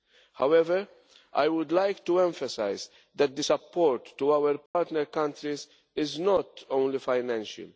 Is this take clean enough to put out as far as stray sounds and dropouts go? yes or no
no